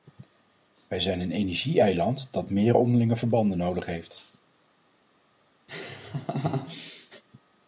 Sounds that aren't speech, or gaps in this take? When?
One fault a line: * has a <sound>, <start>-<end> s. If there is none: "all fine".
* has a laugh, 5.7-7.2 s